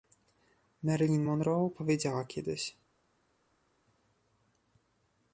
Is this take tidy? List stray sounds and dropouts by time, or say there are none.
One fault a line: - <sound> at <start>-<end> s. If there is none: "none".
none